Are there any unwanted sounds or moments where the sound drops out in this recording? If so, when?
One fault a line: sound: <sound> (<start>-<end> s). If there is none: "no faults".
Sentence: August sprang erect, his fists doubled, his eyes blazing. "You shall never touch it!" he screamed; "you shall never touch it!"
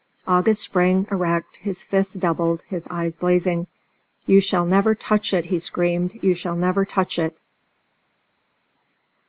no faults